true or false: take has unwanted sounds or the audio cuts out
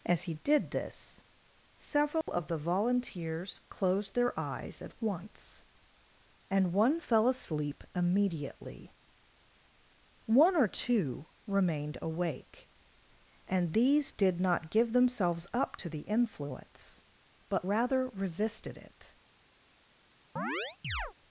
true